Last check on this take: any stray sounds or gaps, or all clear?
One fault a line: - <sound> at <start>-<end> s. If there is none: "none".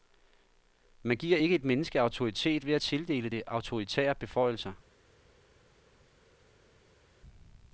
none